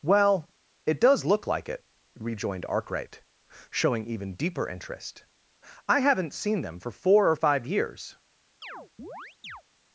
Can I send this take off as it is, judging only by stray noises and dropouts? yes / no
no